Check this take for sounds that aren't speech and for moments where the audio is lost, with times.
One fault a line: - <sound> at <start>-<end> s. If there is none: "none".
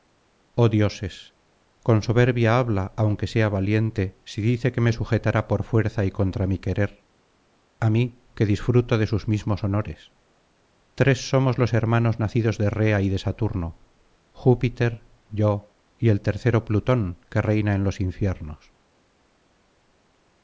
none